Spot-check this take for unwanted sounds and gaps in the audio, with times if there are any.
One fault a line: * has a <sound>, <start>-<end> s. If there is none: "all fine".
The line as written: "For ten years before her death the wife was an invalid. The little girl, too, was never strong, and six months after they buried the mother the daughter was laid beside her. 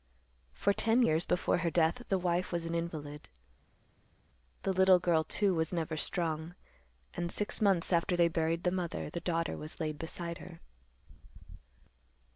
all fine